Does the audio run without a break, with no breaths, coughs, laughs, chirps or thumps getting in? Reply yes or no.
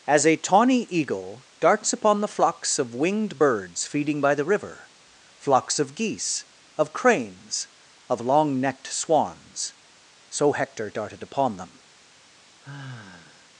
no